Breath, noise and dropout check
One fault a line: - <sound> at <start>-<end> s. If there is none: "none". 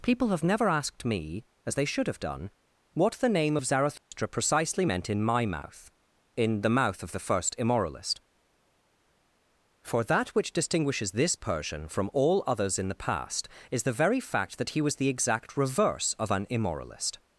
- dropout at 4.0-4.1 s